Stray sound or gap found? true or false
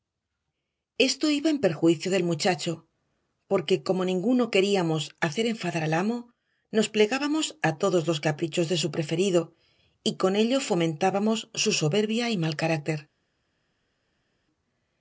false